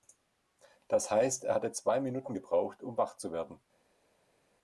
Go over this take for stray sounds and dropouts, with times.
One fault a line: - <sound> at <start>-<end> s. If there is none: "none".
none